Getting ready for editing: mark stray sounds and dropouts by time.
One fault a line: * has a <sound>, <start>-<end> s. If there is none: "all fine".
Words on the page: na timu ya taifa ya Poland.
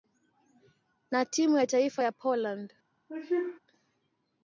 * has a sneeze, 3.1-3.6 s